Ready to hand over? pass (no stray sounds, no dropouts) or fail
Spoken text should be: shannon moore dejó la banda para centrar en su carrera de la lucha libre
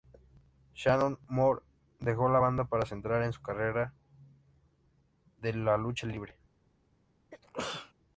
fail